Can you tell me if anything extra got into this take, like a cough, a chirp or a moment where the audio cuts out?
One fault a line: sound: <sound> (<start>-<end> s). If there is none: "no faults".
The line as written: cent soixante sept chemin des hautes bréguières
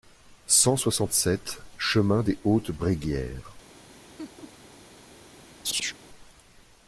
sound: laugh (4.2-4.6 s)
sound: chirp (5.6-6.0 s)